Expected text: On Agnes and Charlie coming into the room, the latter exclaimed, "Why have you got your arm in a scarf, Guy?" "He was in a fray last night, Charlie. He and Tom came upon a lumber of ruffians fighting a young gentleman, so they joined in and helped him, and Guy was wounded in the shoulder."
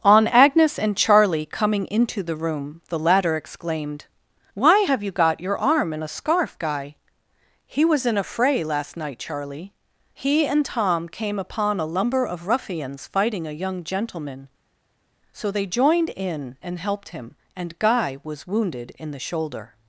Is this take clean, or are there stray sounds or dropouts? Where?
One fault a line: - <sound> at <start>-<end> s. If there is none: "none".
none